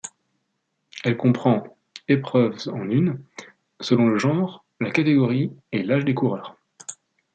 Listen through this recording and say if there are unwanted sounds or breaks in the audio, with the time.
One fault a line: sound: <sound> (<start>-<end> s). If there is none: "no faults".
no faults